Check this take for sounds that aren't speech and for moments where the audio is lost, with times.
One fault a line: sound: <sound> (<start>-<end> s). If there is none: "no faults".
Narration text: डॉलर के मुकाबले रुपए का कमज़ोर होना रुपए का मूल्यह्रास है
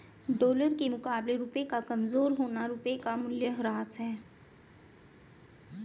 no faults